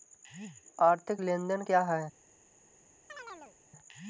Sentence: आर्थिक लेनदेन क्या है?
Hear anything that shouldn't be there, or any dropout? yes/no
yes